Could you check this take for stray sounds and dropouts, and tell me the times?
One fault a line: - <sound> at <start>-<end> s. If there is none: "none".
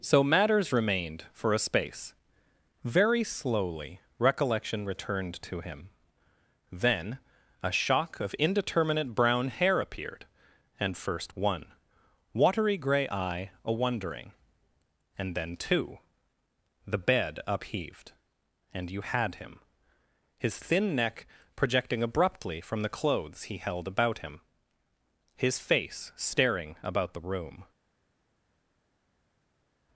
none